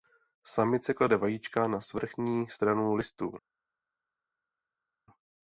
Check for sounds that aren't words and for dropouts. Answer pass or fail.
pass